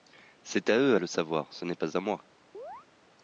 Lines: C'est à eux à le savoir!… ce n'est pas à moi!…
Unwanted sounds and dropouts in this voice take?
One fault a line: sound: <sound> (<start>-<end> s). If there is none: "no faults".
sound: chirp (2.5-2.9 s)